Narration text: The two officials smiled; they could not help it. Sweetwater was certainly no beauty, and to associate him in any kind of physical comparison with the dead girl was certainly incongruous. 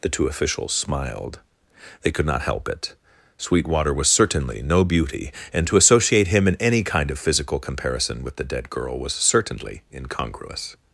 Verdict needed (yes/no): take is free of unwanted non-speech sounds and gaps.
yes